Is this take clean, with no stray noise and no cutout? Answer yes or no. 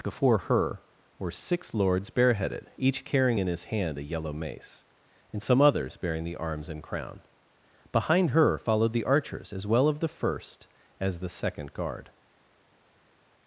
yes